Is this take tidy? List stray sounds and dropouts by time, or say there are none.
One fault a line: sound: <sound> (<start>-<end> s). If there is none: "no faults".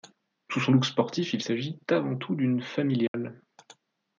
sound: dropout (3.1-3.1 s)